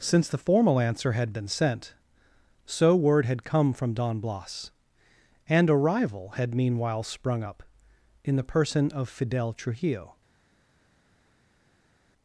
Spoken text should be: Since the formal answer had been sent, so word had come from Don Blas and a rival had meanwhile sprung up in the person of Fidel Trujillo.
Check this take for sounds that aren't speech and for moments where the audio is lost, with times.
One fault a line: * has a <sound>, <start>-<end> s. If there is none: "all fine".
all fine